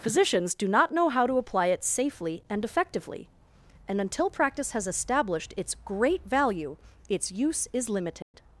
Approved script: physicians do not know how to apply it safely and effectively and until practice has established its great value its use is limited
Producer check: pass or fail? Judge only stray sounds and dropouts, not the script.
fail